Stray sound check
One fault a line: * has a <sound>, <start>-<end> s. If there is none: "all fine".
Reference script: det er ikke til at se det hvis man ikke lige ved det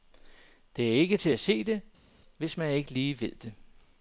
all fine